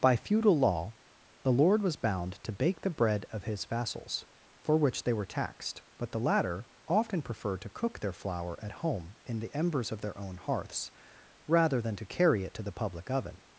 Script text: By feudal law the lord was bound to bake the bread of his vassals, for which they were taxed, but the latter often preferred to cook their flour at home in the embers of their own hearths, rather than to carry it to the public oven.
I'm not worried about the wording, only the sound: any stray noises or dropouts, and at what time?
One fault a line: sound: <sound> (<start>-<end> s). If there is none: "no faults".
no faults